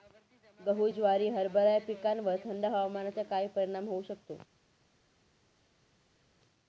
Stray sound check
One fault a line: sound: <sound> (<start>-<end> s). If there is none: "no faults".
no faults